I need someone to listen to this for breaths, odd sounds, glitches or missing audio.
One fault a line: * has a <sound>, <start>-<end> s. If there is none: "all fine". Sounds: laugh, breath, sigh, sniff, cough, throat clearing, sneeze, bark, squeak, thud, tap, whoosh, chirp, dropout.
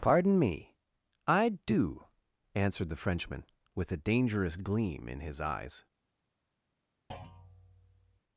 * has a thud, 7.1-8.2 s